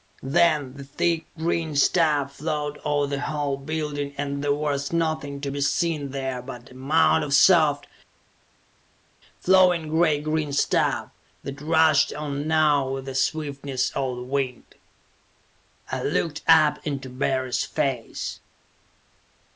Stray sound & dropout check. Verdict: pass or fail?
pass